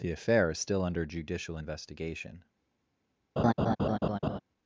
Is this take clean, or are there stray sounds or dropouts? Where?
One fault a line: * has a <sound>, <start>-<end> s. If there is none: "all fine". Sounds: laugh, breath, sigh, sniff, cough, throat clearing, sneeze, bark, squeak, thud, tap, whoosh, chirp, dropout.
* has a laugh, 3.4-4.4 s